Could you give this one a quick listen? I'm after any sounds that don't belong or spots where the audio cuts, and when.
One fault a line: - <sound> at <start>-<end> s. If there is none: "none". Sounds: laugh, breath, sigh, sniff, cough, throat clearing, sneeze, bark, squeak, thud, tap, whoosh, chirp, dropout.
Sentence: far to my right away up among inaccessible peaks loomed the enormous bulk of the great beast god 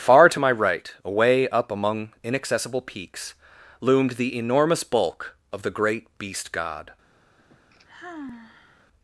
- sigh at 7.4-8.9 s